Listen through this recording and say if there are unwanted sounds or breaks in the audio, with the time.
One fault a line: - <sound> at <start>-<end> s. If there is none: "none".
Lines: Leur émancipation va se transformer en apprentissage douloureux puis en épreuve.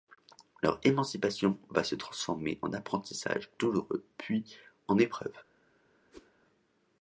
- whoosh at 6.1-6.3 s